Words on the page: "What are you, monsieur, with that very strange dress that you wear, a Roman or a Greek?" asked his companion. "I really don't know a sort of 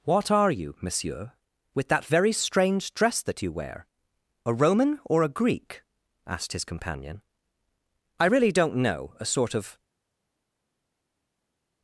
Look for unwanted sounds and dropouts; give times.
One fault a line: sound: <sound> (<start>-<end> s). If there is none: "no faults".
no faults